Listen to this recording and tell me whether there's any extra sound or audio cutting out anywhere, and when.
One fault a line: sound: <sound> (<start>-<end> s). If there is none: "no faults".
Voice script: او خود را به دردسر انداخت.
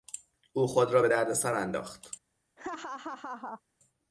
sound: laugh (2.6-3.6 s)